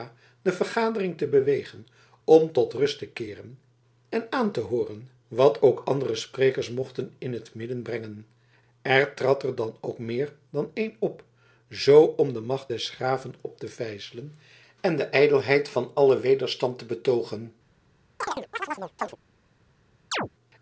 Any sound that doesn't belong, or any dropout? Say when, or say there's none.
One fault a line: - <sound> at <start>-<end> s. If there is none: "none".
- chirp at 18.2-19.2 s
- chirp at 20.1-20.3 s